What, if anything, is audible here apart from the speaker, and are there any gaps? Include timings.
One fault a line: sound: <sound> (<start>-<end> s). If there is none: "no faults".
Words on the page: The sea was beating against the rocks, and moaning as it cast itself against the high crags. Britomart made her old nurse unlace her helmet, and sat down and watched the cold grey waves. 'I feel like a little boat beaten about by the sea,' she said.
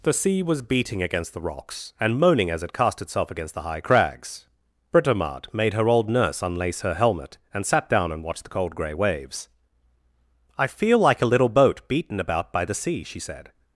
no faults